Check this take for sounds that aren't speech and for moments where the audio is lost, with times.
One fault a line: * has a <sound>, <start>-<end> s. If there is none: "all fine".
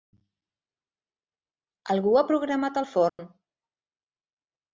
* has a dropout, 3.1-3.2 s